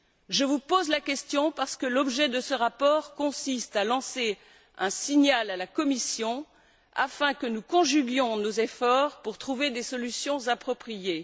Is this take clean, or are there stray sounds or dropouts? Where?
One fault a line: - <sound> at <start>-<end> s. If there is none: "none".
none